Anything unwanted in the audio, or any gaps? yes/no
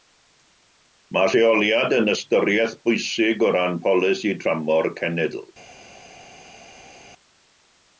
no